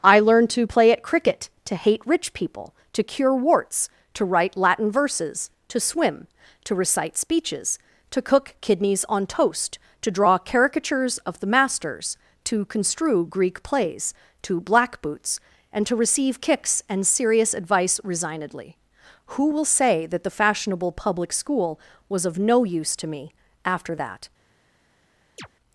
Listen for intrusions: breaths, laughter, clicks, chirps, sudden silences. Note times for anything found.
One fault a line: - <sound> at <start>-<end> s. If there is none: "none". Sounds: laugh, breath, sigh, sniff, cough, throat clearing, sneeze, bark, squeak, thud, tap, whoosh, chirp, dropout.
- chirp at 25.4-25.5 s